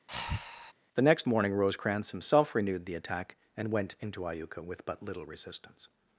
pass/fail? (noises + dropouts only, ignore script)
fail